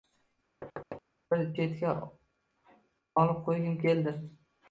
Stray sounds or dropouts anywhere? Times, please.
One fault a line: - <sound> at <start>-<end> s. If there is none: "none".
- thud at 0.6-1.0 s